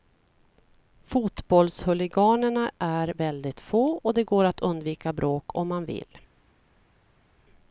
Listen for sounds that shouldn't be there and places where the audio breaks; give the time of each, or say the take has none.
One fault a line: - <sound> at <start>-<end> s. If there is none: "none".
none